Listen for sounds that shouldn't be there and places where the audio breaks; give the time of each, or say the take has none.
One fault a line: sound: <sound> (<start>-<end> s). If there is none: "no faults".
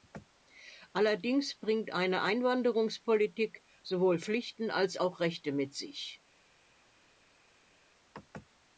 no faults